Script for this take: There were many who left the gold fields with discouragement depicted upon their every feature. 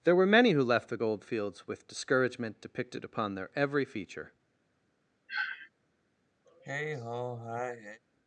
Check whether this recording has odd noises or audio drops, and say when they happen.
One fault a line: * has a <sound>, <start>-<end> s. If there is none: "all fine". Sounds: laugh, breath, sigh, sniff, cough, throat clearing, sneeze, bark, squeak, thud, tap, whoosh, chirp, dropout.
* has a sniff, 5.3-5.7 s
* has a sigh, 6.4-8.0 s